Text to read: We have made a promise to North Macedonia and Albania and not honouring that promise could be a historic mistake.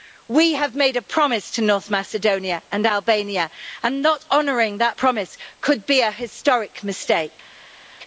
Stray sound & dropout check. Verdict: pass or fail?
pass